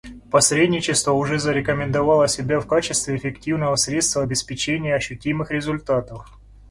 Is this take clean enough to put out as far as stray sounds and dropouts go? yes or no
yes